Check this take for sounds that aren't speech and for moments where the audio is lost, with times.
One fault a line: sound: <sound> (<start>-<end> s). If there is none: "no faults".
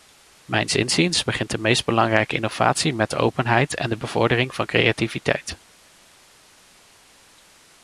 no faults